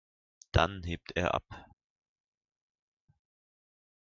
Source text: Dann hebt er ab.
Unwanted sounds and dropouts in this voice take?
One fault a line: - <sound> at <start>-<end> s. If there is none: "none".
none